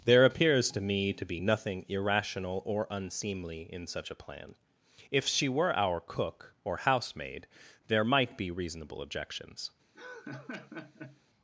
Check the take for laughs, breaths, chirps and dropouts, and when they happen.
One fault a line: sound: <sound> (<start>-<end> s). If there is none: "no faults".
sound: laugh (9.9-11.2 s)